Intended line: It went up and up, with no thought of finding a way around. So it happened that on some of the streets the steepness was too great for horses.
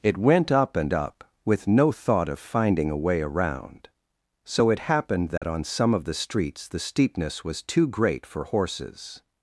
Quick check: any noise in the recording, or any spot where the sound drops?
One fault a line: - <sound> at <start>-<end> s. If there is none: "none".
- dropout at 5.4-5.4 s